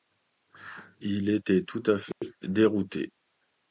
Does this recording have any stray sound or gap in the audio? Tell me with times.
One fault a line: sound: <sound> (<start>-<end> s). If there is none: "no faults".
sound: dropout (2.1-2.2 s)